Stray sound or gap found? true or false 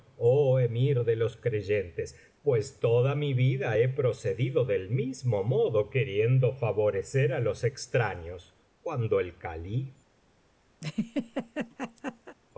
true